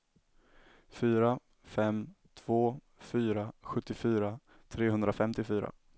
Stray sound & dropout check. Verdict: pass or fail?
pass